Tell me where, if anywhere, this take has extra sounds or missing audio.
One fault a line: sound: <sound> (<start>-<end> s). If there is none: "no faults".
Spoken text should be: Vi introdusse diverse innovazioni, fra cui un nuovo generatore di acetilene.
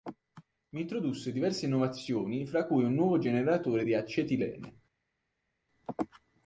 no faults